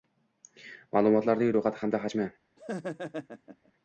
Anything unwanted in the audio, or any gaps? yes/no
yes